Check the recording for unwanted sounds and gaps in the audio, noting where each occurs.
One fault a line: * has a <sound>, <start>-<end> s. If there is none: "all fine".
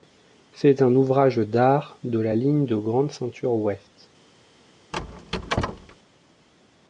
* has a squeak, 4.9-6.0 s